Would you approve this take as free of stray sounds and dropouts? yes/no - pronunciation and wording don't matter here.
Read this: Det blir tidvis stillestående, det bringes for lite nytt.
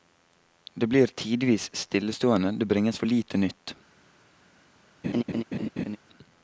no